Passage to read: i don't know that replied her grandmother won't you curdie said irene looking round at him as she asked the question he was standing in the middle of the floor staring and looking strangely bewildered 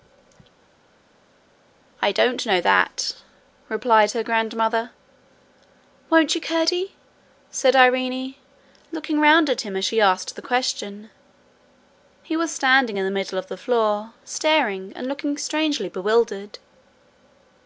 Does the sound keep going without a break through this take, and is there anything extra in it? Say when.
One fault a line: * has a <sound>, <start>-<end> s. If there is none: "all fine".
all fine